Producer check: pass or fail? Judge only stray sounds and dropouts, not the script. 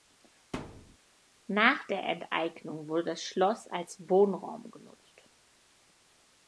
fail